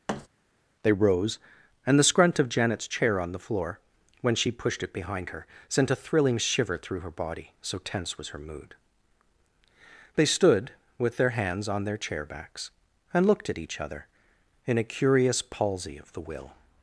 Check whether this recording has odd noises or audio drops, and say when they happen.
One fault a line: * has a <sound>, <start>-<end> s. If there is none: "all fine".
* has a thud, 0.1-0.3 s